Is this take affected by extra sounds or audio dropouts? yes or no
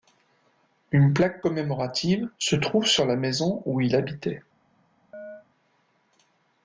yes